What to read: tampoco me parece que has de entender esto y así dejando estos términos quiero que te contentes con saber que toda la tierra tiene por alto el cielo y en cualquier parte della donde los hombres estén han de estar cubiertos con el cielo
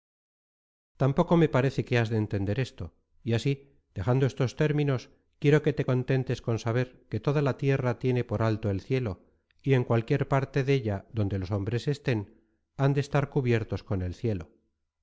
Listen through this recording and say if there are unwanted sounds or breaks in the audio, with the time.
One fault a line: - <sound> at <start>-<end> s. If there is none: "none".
none